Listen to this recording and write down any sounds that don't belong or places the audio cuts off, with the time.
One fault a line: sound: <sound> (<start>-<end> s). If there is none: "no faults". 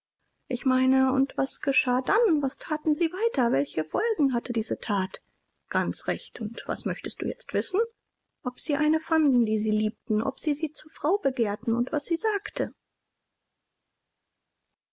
no faults